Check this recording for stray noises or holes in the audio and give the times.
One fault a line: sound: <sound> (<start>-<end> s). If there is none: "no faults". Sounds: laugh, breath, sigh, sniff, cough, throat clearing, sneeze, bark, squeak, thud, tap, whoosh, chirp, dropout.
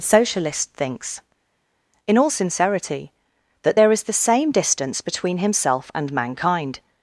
no faults